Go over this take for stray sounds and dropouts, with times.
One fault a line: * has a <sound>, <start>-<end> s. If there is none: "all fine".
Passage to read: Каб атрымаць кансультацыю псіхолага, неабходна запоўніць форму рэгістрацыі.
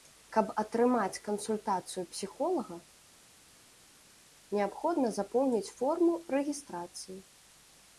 all fine